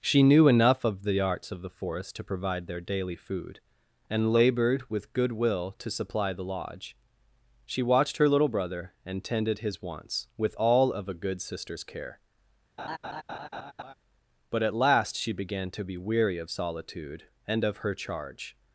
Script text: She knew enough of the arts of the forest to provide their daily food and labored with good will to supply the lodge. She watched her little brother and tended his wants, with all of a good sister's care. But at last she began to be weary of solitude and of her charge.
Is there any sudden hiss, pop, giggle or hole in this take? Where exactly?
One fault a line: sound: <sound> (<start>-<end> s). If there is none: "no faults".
sound: laugh (12.8-13.9 s)